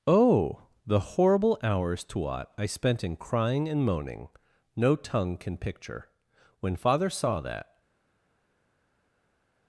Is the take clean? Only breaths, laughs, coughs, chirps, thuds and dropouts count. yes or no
yes